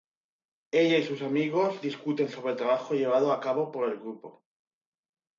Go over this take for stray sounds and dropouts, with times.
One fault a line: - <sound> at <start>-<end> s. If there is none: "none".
none